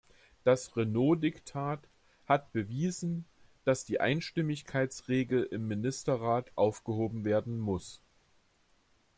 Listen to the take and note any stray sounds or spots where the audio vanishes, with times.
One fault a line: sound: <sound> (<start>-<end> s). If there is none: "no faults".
no faults